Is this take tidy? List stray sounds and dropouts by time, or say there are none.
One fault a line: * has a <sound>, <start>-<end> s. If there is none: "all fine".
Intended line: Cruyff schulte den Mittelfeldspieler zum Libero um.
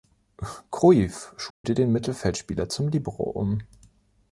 * has a dropout, 1.5-1.6 s